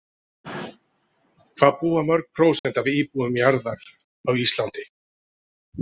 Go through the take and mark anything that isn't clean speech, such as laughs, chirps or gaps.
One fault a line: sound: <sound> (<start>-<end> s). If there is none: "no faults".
sound: dropout (2.6-2.6 s)